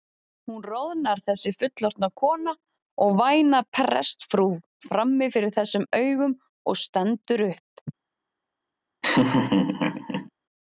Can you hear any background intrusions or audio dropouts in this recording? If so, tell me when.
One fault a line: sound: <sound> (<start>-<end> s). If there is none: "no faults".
sound: laugh (9.0-10.3 s)